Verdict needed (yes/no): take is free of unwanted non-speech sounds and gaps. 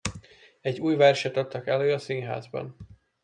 yes